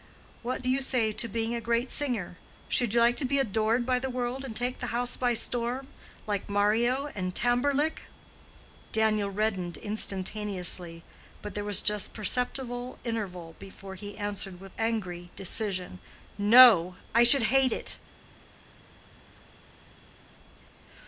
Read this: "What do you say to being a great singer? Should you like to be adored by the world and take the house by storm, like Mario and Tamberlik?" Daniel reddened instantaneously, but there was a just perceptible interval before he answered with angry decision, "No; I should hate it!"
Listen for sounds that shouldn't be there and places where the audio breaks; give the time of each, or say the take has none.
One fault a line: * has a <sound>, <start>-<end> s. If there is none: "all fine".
all fine